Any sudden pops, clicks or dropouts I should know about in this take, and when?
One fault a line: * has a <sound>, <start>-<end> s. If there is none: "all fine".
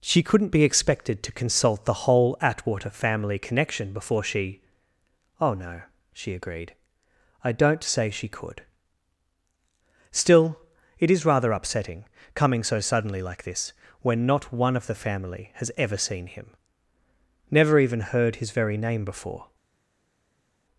all fine